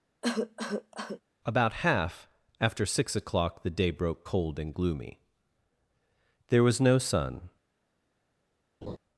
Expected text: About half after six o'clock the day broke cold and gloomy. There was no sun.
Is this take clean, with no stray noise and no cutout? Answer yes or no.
no